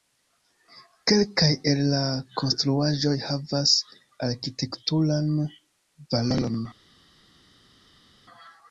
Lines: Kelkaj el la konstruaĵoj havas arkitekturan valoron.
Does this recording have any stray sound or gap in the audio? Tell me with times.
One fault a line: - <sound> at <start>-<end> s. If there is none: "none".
none